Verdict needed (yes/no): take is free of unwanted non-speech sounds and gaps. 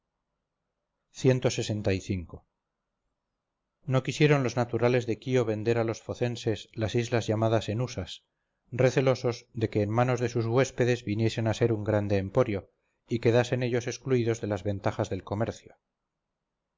yes